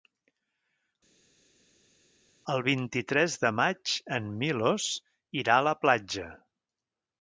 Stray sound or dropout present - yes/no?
no